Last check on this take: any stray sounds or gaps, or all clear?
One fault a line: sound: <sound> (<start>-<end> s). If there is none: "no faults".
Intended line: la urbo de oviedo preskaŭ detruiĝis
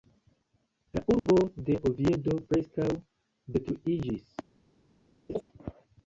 sound: dropout (1.2-1.3 s)
sound: laugh (5.3-5.4 s)